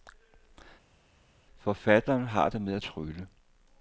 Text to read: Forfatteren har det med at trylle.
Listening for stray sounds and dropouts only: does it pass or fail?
pass